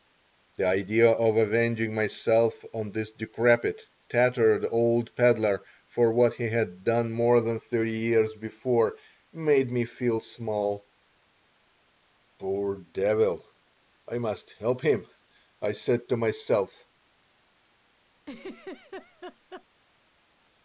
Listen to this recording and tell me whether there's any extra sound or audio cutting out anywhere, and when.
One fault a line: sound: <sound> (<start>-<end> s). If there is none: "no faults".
sound: laugh (18.2-19.7 s)